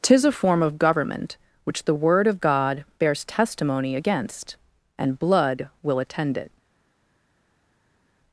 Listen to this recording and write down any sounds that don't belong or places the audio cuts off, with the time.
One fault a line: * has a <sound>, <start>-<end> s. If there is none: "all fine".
all fine